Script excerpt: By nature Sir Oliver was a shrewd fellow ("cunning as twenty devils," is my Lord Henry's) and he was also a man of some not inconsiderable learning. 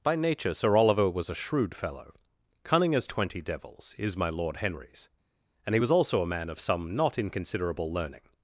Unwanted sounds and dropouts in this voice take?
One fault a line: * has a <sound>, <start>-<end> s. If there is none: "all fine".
all fine